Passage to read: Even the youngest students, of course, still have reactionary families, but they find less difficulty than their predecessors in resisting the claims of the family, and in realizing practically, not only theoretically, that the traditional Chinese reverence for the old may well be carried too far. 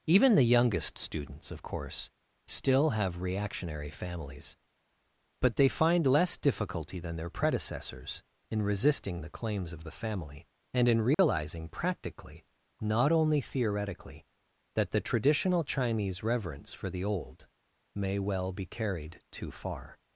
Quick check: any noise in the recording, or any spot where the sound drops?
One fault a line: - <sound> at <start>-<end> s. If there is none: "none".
- dropout at 11.1-11.2 s